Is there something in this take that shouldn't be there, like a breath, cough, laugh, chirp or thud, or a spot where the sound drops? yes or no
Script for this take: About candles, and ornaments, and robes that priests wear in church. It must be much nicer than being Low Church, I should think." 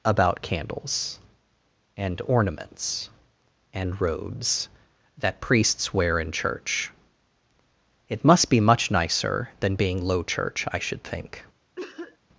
yes